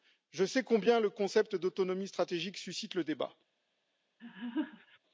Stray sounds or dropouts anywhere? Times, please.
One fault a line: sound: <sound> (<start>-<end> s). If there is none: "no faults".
sound: laugh (4.2-5.0 s)